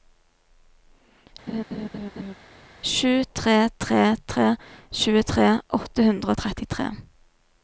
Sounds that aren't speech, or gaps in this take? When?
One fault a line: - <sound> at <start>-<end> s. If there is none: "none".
- laugh at 1.5-2.3 s